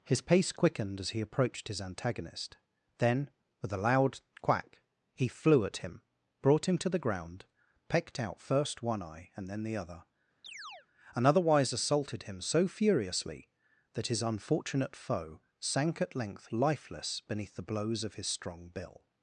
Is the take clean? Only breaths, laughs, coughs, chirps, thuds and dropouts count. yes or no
no